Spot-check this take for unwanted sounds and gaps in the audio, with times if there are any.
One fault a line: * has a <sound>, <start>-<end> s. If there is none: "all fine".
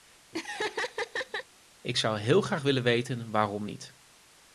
* has a laugh, 0.3-1.5 s